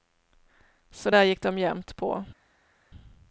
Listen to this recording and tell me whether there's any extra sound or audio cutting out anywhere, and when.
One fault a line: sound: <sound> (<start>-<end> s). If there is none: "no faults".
no faults